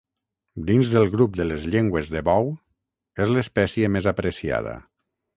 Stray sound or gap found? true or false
false